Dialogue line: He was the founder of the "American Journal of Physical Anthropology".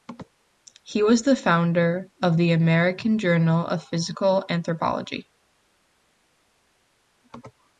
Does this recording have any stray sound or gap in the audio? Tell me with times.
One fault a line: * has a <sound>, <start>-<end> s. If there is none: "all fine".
all fine